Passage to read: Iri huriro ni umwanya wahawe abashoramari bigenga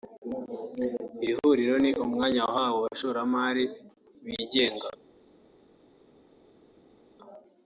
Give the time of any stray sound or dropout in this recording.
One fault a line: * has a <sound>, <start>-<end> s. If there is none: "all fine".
all fine